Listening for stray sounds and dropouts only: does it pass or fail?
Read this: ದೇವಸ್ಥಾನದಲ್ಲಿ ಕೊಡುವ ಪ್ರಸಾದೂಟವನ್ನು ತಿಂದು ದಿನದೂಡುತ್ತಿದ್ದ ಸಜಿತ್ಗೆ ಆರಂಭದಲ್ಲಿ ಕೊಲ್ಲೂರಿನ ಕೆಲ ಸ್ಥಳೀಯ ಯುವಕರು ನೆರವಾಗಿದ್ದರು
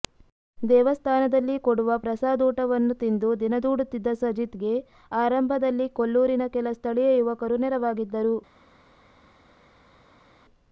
pass